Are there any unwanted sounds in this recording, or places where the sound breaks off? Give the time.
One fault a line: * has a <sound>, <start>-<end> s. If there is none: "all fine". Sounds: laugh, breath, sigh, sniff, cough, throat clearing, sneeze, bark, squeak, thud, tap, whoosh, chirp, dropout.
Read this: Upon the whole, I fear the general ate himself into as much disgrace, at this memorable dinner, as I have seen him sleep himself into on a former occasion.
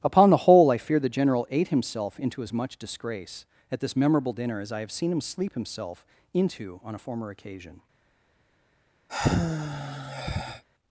* has a sigh, 9.1-10.6 s